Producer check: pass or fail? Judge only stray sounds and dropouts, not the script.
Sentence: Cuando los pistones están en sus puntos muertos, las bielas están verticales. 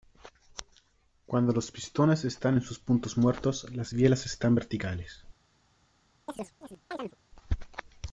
fail